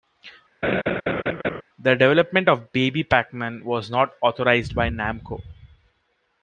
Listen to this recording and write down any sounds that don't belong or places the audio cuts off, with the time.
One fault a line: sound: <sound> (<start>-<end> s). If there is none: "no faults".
sound: laugh (0.6-1.6 s)